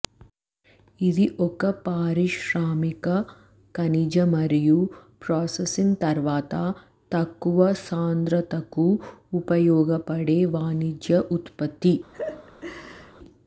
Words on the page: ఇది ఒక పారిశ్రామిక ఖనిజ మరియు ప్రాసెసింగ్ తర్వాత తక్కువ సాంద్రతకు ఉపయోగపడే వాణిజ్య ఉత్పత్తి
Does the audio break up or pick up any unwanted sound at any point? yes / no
yes